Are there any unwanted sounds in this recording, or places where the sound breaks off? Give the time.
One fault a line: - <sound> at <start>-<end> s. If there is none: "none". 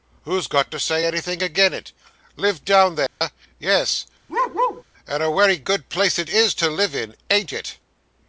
- dropout at 3.1-3.2 s
- bark at 4.3-4.8 s